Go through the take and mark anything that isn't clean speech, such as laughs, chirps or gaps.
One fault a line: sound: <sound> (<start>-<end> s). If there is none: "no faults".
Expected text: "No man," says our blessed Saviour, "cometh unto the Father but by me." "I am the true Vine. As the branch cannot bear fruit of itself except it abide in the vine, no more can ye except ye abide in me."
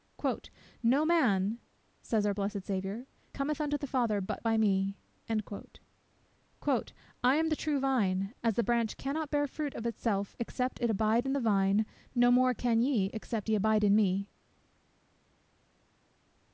no faults